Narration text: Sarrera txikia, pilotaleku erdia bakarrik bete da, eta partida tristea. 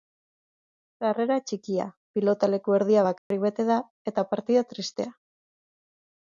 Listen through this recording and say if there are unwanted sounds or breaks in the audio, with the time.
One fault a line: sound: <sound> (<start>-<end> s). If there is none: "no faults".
sound: dropout (3.2-3.3 s)